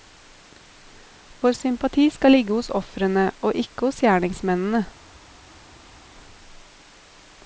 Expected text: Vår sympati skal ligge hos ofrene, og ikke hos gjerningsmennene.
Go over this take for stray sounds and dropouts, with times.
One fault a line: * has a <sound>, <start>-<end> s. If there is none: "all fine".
all fine